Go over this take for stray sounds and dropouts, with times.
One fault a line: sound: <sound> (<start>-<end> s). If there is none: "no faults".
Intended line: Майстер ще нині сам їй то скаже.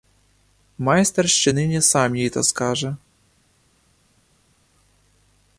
no faults